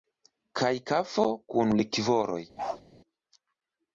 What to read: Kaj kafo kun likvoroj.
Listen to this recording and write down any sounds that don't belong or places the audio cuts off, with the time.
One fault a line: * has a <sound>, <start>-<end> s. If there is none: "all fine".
* has a bark, 2.6-2.8 s